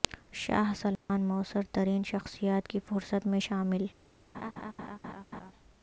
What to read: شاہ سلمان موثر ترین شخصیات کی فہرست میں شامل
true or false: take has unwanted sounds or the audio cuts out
true